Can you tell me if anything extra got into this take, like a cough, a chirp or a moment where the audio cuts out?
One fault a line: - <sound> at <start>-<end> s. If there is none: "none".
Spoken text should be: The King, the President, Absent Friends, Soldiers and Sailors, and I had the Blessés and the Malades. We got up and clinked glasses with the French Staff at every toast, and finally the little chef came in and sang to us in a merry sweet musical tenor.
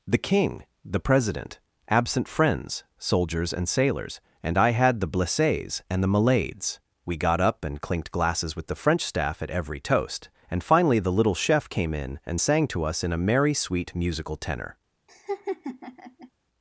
- laugh at 15.1-16.3 s